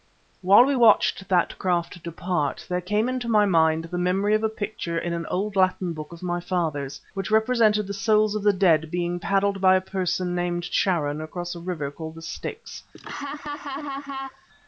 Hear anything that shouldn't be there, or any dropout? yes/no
yes